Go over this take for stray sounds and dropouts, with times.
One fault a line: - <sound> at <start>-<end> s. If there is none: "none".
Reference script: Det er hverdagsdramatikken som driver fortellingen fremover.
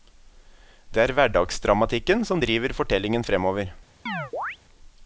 - chirp at 4.1-4.6 s